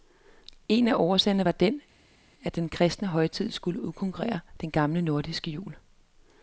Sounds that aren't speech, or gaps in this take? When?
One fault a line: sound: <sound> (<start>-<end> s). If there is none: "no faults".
no faults